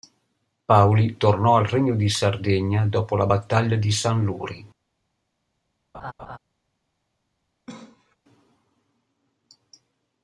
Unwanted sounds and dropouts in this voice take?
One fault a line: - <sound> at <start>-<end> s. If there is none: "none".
- laugh at 5.9-6.4 s
- cough at 7.7-8.2 s